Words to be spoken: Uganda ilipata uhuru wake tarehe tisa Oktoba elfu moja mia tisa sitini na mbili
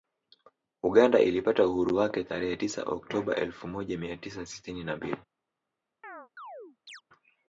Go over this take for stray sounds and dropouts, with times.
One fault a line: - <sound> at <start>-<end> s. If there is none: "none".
- chirp at 6.0-7.0 s